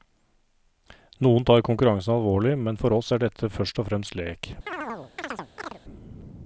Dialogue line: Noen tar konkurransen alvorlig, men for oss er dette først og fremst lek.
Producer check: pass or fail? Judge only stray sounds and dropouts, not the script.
fail